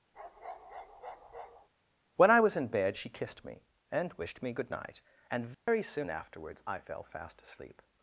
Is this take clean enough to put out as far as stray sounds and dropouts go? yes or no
no